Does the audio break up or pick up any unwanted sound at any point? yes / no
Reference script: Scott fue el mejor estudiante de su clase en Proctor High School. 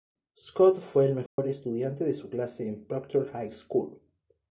yes